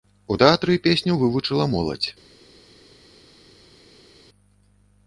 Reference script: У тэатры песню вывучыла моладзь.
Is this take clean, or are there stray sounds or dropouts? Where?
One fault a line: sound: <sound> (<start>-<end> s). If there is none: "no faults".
no faults